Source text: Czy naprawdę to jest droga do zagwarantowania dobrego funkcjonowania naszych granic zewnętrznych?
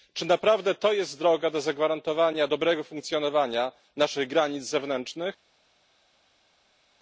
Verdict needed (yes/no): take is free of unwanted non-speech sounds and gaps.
yes